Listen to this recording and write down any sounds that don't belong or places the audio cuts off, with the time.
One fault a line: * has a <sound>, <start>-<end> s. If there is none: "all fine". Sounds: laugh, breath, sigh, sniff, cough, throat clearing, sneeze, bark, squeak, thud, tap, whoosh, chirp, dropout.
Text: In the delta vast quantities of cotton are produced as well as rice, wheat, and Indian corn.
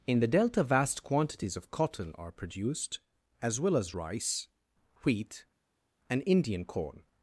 all fine